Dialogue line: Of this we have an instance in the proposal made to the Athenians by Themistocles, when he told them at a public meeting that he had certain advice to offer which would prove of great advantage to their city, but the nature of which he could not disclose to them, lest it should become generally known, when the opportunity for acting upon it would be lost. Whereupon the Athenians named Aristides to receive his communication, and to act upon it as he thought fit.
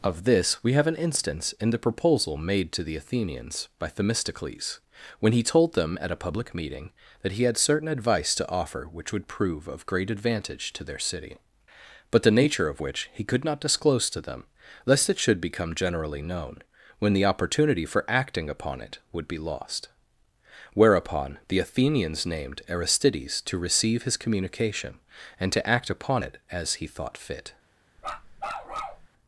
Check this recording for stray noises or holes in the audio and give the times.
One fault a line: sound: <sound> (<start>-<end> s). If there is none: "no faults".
sound: bark (28.0-29.1 s)